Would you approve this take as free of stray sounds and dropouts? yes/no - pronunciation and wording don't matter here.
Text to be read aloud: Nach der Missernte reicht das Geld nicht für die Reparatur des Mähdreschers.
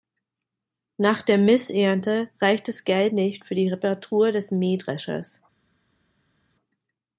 yes